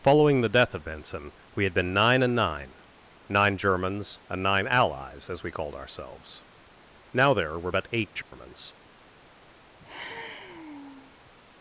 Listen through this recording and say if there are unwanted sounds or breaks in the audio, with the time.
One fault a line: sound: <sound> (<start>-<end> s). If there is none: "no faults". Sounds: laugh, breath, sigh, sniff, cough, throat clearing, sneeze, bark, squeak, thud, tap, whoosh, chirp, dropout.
sound: dropout (8.2-8.3 s)
sound: sigh (9.8-11.3 s)